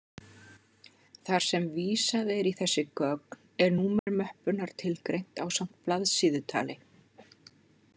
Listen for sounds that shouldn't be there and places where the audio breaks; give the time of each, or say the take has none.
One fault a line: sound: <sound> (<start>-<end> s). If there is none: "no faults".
sound: dropout (4.0-4.1 s)